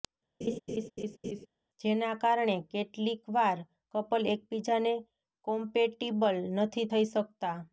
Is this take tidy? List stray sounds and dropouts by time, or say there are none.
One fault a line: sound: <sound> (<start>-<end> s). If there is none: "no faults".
sound: laugh (0.4-1.5 s)